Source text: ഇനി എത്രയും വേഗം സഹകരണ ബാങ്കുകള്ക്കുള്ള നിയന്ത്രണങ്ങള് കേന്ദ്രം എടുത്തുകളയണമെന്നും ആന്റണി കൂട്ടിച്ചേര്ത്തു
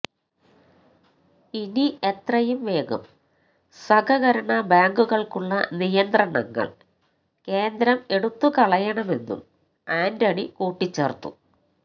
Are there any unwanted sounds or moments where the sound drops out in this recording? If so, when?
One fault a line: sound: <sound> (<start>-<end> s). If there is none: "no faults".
no faults